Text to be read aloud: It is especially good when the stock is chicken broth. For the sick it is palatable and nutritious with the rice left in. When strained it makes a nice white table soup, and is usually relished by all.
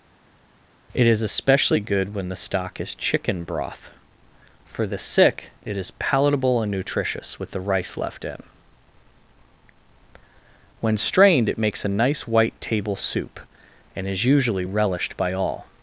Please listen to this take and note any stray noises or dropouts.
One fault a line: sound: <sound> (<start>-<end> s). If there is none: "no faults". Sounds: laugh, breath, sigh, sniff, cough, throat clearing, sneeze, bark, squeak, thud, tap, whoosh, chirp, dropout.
no faults